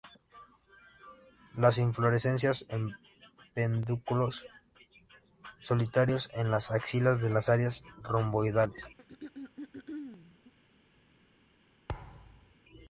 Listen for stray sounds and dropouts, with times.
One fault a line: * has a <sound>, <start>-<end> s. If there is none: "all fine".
* has a throat clearing, 9.0-10.5 s
* has a thud, 11.9-12.5 s